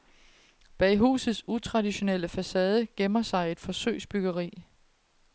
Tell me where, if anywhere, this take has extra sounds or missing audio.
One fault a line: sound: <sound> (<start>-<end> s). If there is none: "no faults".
no faults